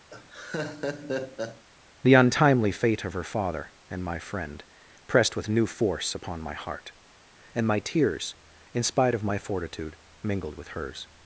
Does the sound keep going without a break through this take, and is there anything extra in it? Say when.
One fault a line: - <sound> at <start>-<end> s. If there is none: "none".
- laugh at 0.1-1.6 s